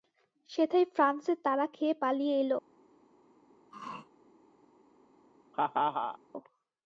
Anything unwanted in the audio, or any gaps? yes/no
yes